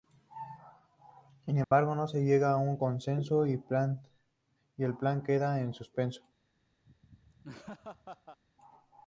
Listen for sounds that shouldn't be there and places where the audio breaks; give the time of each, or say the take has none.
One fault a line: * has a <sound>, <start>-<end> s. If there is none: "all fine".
* has a dropout, 1.6-1.7 s
* has a laugh, 6.9-8.4 s